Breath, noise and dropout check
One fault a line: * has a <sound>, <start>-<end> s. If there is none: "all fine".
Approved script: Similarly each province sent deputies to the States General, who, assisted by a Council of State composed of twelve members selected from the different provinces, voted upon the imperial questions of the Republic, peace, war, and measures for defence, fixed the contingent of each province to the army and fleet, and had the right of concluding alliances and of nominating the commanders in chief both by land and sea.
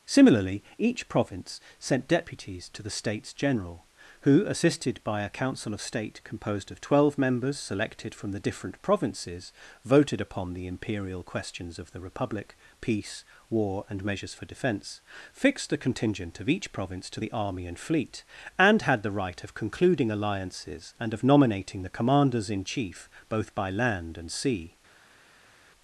all fine